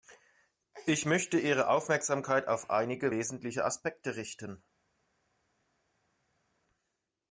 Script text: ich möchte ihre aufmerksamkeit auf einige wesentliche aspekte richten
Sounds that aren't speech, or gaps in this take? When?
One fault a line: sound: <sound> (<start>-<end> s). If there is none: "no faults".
no faults